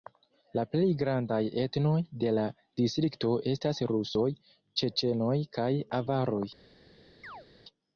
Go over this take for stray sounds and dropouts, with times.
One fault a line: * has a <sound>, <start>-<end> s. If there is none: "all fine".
* has a chirp, 7.2-7.5 s